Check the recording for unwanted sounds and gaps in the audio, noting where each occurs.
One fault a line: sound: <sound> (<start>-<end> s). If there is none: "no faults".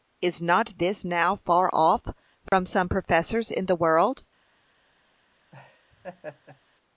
sound: dropout (2.5-2.5 s)
sound: laugh (5.5-6.6 s)